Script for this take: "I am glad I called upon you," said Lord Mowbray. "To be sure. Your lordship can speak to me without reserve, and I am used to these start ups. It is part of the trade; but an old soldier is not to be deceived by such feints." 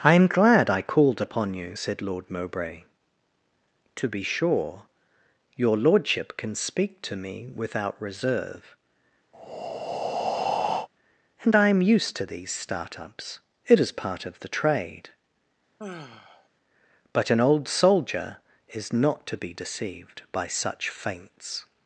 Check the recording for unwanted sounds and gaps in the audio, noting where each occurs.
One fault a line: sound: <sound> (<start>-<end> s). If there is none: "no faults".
sound: breath (9.3-10.9 s)
sound: sigh (15.8-16.5 s)